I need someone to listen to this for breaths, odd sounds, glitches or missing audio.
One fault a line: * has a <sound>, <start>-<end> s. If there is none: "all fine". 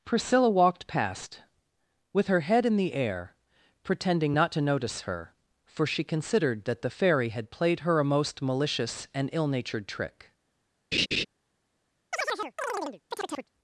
* has a laugh, 10.9-11.3 s
* has a chirp, 12.1-13.5 s